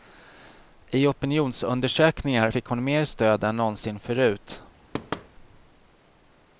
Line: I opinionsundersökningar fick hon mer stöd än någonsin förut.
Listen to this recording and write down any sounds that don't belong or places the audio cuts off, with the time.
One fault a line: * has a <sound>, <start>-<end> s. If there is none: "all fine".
* has a thud, 4.9-5.3 s